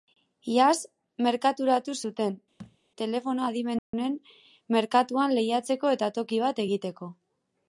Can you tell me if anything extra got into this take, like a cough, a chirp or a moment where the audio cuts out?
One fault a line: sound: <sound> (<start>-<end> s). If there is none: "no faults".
sound: thud (2.6-2.8 s)
sound: dropout (3.8-3.9 s)